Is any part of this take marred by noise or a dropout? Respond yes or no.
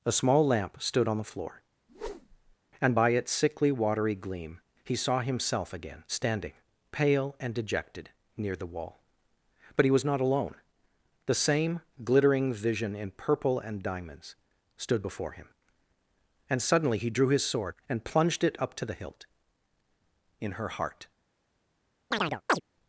yes